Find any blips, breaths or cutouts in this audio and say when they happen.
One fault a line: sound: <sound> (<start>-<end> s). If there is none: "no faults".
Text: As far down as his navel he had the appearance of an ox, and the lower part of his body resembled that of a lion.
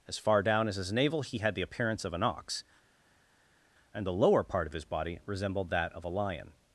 no faults